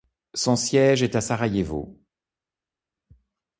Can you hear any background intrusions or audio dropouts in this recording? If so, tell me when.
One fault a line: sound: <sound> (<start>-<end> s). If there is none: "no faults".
no faults